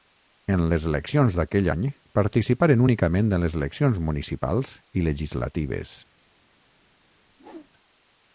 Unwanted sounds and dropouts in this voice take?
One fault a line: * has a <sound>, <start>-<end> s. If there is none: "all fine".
* has a whoosh, 7.3-7.7 s